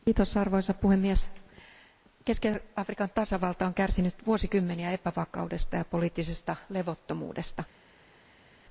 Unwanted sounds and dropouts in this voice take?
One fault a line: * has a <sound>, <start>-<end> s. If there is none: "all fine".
all fine